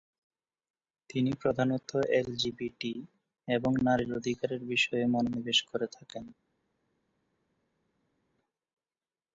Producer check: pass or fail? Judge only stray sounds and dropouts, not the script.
pass